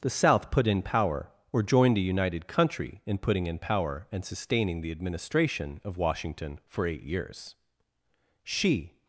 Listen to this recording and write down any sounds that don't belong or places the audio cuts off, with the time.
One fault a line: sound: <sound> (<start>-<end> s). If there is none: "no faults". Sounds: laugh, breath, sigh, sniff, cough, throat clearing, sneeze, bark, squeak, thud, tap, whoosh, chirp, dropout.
no faults